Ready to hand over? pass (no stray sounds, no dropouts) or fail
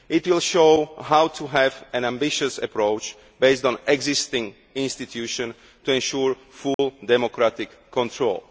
fail